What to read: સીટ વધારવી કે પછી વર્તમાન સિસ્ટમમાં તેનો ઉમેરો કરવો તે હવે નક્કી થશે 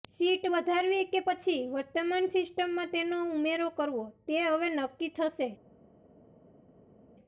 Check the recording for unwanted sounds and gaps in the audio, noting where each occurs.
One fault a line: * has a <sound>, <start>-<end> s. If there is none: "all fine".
all fine